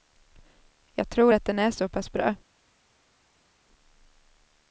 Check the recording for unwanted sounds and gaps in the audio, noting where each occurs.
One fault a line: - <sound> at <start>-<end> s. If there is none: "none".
none